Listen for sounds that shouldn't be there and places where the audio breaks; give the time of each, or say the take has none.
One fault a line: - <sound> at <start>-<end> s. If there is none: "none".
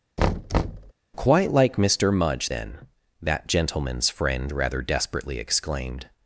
- thud at 0.2-0.9 s